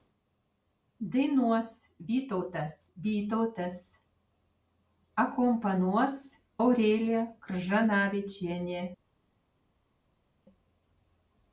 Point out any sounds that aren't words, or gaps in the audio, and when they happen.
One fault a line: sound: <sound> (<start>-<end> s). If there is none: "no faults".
no faults